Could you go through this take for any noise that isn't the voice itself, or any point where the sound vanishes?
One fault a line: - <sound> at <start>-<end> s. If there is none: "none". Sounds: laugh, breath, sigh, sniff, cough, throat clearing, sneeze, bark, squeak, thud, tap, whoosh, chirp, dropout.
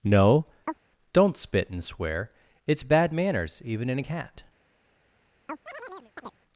- chirp at 0.7-0.8 s
- chirp at 5.5-6.4 s